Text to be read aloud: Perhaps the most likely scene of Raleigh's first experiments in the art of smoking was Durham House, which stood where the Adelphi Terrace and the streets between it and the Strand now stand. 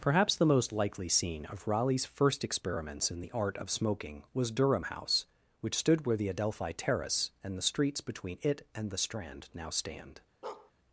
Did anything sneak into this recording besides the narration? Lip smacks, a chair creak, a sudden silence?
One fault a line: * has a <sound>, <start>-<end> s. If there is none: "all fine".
* has a bark, 10.4-10.7 s